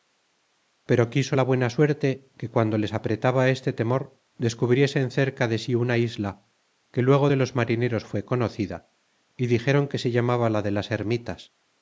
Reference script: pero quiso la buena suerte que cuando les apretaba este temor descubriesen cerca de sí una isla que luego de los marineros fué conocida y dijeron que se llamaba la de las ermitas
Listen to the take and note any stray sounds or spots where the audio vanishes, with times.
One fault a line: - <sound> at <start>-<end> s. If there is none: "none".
none